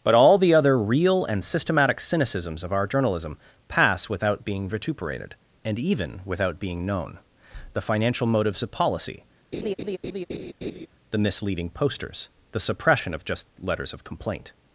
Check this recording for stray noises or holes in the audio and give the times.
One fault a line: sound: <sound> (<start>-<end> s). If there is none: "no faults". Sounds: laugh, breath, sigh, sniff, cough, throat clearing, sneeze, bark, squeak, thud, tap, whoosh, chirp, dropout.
sound: laugh (9.5-10.9 s)